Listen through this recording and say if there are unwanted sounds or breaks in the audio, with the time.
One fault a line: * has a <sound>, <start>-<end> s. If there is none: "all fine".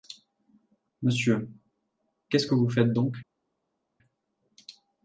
all fine